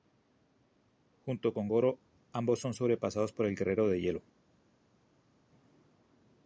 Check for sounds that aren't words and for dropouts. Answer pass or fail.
pass